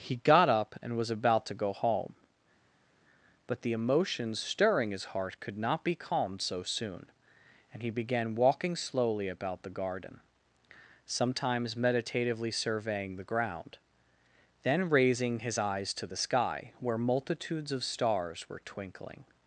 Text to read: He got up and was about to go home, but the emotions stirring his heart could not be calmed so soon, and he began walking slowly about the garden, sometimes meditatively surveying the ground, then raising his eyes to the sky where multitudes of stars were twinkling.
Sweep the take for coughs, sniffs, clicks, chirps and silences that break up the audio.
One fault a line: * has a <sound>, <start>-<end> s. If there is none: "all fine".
all fine